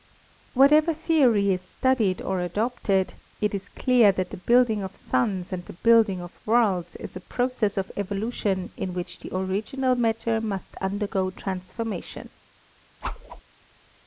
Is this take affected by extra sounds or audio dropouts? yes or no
yes